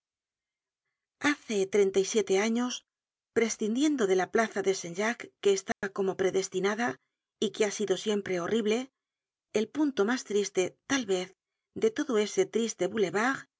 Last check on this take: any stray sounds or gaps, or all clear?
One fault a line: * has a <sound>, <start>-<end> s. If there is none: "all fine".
* has a dropout, 5.7-5.8 s